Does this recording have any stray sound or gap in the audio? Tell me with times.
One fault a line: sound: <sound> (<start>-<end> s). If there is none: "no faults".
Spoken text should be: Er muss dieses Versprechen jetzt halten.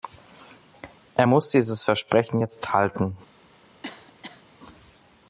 sound: cough (3.8-4.4 s)